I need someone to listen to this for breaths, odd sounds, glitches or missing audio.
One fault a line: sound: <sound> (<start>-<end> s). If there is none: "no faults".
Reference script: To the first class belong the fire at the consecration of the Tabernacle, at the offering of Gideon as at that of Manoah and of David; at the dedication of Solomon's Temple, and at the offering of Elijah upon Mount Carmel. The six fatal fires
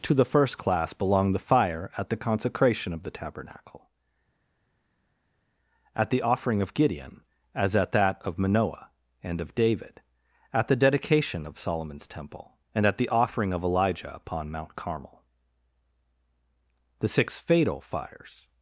no faults